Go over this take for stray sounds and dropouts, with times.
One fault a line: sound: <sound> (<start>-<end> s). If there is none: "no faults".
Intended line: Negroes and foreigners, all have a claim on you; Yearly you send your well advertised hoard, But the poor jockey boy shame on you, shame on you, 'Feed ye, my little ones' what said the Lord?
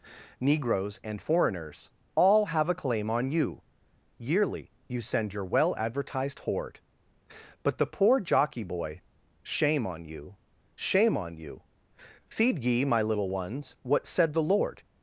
no faults